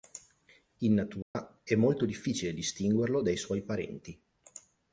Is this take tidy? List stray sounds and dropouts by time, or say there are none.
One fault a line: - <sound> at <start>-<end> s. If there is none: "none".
- dropout at 1.2-1.4 s